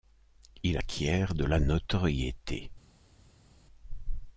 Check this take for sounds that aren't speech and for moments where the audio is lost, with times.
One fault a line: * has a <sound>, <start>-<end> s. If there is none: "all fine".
all fine